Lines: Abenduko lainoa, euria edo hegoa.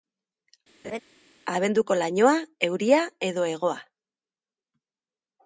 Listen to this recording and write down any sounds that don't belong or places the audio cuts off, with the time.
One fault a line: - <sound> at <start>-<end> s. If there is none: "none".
- laugh at 0.8-1.0 s